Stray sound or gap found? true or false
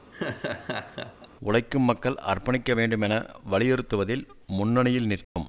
true